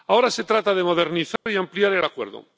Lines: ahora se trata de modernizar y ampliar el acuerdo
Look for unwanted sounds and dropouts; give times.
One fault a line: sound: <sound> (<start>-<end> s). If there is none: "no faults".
sound: dropout (1.4-1.5 s)